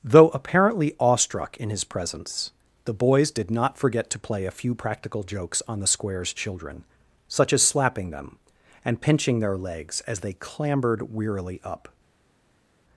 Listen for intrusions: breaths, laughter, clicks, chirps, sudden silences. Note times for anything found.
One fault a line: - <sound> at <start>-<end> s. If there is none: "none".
none